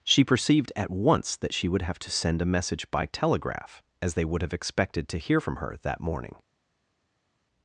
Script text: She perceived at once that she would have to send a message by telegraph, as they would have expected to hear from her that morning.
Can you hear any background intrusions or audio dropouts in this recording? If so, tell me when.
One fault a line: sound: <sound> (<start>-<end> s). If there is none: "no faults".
no faults